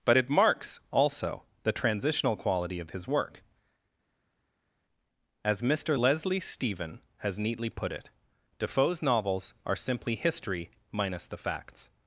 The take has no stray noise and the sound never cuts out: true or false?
true